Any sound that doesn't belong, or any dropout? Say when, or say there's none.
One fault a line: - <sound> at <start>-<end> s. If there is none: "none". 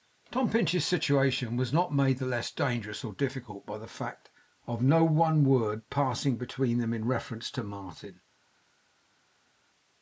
none